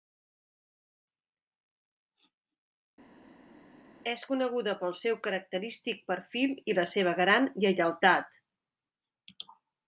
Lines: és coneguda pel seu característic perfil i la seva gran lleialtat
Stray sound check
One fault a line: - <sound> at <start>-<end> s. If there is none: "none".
none